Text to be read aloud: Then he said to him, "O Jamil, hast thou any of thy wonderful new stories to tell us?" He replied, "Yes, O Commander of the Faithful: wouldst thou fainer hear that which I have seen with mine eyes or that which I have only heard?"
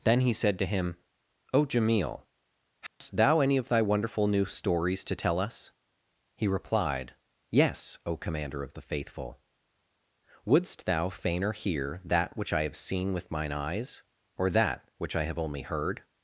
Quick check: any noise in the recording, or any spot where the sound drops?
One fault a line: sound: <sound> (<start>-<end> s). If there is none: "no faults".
sound: dropout (2.9-3.0 s)